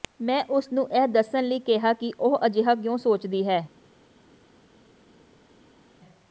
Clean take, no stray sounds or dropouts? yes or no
yes